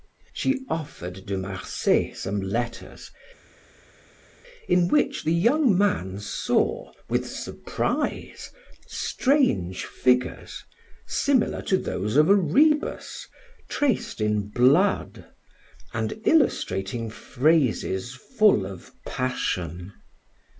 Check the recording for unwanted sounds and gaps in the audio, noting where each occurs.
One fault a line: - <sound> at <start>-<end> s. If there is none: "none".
none